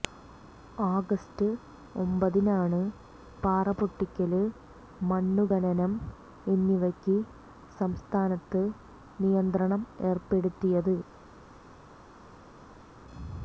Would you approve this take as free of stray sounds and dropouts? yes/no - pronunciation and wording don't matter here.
yes